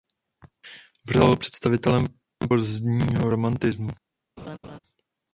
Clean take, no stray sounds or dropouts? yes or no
no